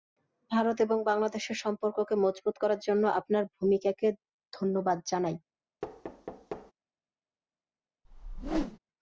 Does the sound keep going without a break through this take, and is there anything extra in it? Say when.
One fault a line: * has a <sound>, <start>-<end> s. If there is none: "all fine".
* has a thud, 5.8-6.7 s
* has a whoosh, 8.0-8.8 s